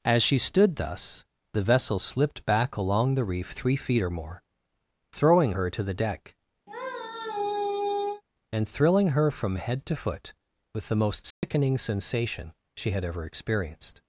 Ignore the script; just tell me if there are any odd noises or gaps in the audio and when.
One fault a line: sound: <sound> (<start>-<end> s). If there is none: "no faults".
sound: sigh (6.7-8.2 s)
sound: dropout (11.3-11.4 s)